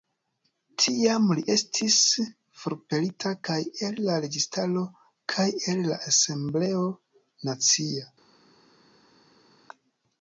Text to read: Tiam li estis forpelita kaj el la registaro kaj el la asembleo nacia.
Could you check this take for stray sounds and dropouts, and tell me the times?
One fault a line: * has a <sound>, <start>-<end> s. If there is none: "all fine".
all fine